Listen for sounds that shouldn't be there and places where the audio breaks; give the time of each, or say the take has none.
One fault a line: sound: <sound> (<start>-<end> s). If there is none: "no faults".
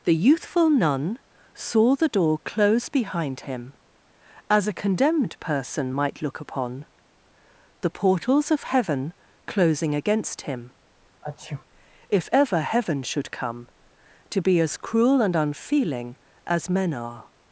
sound: sneeze (11.2-11.6 s)